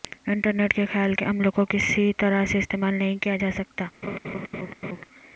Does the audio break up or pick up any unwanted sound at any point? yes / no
yes